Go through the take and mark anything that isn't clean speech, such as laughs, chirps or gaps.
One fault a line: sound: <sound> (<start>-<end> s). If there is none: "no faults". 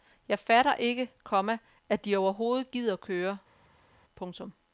no faults